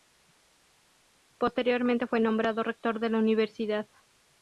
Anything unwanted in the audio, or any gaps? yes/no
no